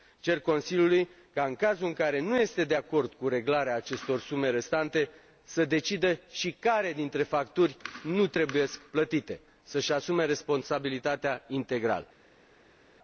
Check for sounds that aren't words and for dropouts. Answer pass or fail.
pass